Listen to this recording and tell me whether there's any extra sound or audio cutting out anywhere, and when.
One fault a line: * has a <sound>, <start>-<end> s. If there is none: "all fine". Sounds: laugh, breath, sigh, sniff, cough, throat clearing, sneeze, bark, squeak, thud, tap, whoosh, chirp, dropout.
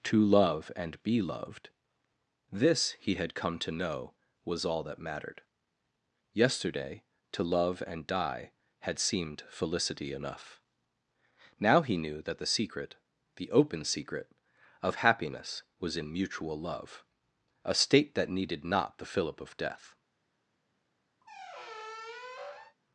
* has a squeak, 21.2-22.8 s